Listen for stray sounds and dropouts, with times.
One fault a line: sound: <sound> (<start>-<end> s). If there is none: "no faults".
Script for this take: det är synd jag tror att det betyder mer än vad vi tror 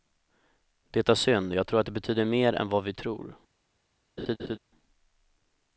sound: laugh (4.2-4.6 s)